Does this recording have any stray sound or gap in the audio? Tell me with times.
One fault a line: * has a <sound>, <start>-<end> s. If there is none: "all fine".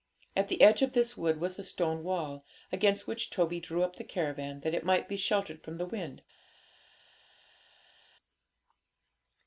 all fine